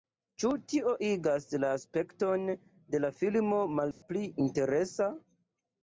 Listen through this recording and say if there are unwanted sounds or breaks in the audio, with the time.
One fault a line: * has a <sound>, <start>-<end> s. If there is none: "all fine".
* has a dropout, 3.9-4.0 s